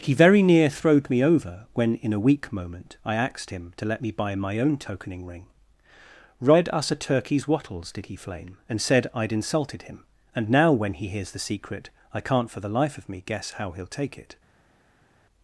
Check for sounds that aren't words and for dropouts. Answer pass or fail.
pass